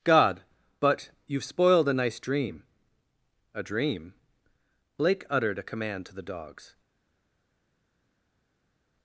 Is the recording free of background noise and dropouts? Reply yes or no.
yes